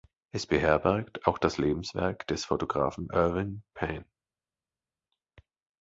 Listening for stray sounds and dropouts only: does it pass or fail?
pass